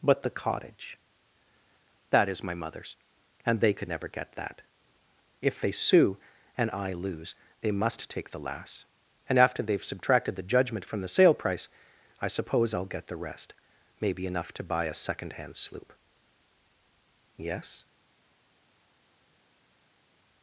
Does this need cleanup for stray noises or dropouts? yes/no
no